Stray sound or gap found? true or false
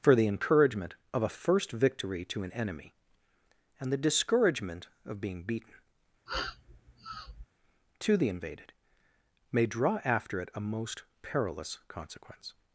true